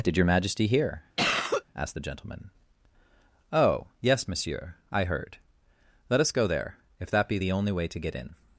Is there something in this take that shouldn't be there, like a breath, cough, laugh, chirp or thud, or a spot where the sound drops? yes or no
yes